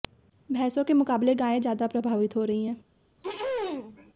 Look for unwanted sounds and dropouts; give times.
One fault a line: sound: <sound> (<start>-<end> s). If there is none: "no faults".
sound: throat clearing (3.2-4.1 s)